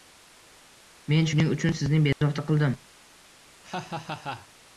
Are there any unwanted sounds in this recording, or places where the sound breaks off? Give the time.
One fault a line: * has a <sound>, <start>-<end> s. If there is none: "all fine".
* has a dropout, 2.1-2.2 s
* has a laugh, 3.6-4.5 s